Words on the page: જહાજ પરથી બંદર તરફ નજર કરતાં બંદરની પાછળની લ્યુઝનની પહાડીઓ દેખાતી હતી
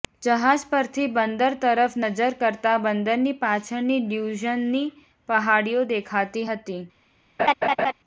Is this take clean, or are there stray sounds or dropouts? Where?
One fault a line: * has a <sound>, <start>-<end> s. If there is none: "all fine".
* has a laugh, 7.4-7.9 s